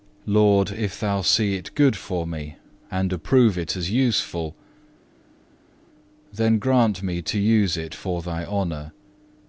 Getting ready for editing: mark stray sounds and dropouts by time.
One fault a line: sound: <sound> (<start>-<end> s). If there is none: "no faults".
no faults